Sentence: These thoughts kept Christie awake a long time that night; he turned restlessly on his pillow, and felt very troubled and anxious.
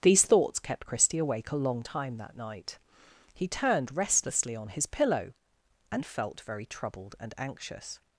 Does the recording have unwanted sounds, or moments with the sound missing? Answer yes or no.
no